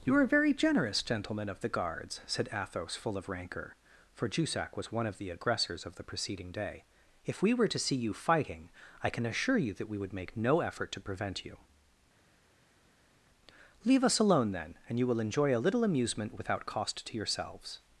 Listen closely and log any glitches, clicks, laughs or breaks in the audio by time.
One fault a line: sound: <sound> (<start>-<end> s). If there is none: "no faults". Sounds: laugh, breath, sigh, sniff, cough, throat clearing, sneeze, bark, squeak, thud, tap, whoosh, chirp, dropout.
no faults